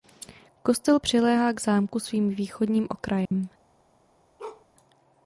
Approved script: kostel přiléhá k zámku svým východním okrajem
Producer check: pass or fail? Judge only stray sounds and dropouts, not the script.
fail